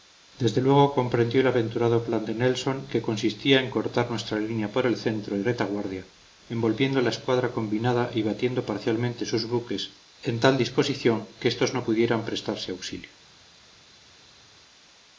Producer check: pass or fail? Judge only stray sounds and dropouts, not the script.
pass